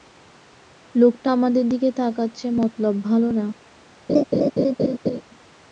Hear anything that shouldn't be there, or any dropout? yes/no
yes